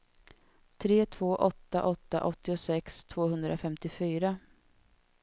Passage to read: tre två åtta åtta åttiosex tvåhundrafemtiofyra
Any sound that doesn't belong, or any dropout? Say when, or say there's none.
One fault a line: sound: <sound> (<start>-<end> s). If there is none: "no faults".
no faults